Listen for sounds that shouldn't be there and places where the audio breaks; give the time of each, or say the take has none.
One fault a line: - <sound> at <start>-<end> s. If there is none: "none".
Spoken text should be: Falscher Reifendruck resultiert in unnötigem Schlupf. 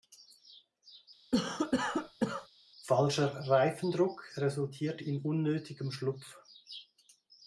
- cough at 1.3-2.5 s